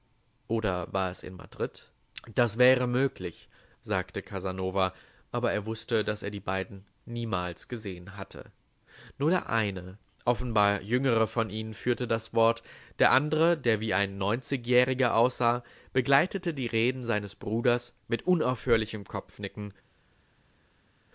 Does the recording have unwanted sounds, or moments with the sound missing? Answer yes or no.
no